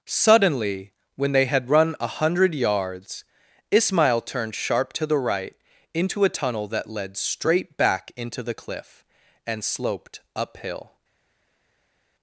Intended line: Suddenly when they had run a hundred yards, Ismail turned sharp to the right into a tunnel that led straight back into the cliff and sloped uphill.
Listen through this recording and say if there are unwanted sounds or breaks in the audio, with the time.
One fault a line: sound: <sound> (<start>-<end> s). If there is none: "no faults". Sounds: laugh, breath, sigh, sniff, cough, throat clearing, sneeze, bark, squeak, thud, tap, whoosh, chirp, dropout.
no faults